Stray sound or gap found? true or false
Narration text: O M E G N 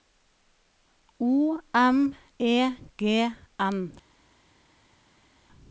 false